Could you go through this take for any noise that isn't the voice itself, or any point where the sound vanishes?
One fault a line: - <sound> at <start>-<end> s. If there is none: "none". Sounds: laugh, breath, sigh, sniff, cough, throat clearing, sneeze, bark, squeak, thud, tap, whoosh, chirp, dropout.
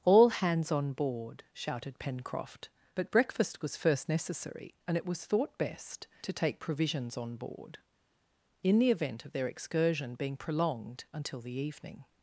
none